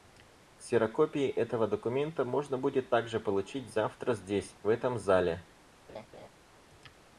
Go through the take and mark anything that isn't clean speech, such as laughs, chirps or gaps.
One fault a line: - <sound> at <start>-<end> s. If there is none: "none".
- laugh at 5.9-6.3 s